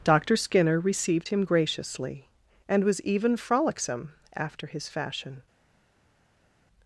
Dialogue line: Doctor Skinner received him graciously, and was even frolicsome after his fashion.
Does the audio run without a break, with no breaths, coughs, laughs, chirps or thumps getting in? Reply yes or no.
yes